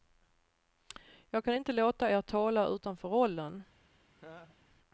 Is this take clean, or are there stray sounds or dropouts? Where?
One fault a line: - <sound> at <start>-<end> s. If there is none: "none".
- laugh at 4.1-4.6 s